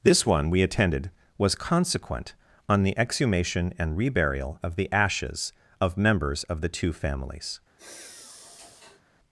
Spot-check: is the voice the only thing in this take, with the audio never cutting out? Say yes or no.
no